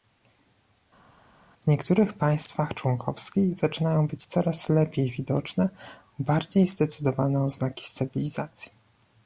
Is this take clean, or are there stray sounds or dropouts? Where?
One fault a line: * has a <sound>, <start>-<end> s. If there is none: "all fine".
all fine